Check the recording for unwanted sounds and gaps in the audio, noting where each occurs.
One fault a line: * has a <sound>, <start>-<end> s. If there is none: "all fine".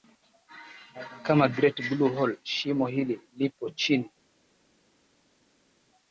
all fine